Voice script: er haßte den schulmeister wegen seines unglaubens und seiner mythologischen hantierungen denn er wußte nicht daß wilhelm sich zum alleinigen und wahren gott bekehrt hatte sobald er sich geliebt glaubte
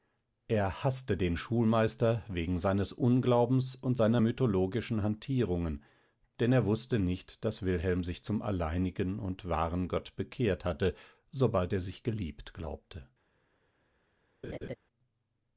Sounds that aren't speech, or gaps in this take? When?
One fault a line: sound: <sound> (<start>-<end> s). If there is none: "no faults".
sound: laugh (14.4-14.8 s)